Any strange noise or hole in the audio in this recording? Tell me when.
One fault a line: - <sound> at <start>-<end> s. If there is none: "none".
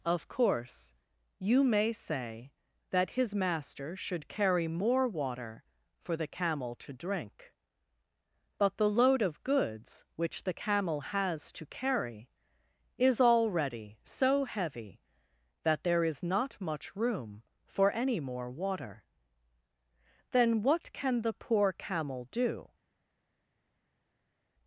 none